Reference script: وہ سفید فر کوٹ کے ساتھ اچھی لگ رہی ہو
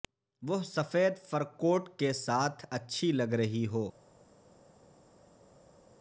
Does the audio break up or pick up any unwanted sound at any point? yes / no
no